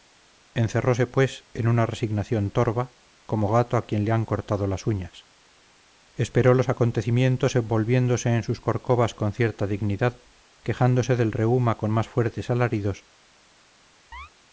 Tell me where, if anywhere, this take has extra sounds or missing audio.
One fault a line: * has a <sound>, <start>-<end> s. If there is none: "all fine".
* has a chirp, 14.1-14.3 s